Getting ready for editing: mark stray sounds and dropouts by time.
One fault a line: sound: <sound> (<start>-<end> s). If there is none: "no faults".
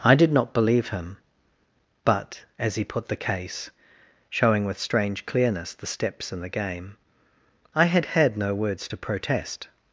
no faults